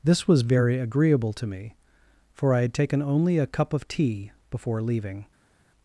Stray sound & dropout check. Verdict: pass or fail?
pass